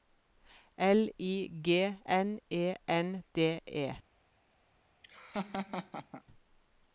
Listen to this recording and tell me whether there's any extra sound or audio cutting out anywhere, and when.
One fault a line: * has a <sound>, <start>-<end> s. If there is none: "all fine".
* has a laugh, 5.0-6.2 s